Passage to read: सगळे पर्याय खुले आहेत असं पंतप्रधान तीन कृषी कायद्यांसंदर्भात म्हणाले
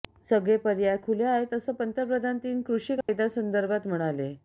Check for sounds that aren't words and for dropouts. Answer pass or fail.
fail